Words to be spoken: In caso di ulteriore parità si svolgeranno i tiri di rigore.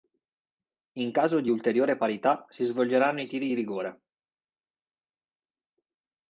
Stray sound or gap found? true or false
false